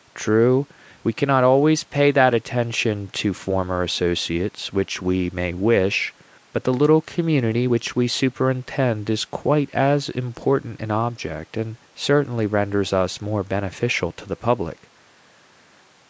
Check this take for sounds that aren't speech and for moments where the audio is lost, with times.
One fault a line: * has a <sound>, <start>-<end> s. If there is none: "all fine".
all fine